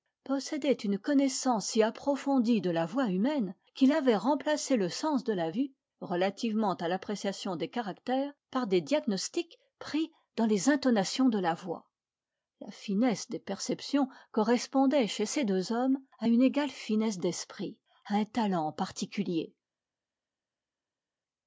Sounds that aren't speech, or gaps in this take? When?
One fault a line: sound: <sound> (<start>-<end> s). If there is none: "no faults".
no faults